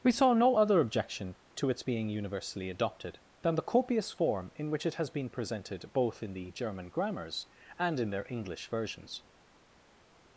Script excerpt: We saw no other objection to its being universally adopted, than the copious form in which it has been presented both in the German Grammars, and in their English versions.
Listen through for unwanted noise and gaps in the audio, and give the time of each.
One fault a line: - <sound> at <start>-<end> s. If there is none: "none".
none